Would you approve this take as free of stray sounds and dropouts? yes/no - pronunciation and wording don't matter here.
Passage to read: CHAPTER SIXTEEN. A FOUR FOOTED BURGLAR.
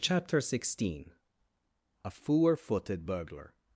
yes